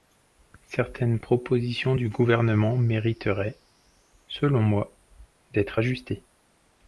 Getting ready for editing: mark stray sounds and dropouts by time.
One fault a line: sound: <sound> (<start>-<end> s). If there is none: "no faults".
no faults